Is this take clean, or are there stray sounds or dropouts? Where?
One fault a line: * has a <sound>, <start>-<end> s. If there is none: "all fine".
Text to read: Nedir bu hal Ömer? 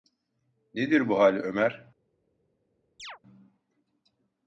* has a chirp, 3.0-3.2 s